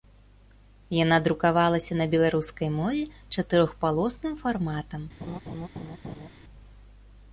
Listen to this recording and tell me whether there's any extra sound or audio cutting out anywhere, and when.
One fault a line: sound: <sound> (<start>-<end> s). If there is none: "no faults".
sound: laugh (5.2-6.3 s)